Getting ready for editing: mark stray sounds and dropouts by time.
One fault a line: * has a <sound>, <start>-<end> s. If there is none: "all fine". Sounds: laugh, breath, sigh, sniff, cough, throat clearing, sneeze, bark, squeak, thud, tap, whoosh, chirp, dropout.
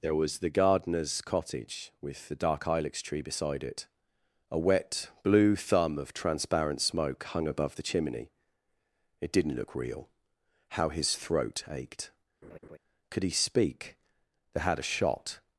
* has a laugh, 12.4-12.8 s